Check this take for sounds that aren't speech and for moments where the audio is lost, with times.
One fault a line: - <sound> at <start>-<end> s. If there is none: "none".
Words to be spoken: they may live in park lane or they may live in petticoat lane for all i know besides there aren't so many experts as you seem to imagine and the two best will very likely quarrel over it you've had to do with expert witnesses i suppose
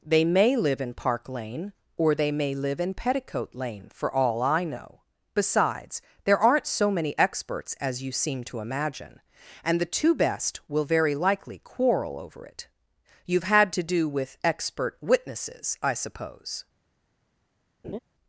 - laugh at 17.8-18.0 s